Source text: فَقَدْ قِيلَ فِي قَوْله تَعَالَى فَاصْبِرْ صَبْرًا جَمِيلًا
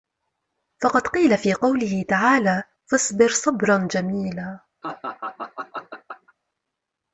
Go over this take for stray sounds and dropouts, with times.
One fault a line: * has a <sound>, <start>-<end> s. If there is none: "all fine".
* has a laugh, 4.8-6.3 s